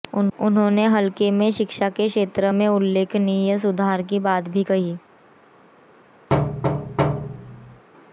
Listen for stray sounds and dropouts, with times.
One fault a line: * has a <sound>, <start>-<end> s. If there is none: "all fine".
* has a thud, 6.3-7.8 s